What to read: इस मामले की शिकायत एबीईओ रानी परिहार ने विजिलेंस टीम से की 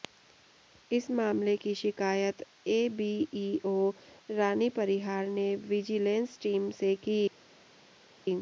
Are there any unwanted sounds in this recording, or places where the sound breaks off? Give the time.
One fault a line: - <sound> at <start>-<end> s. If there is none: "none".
none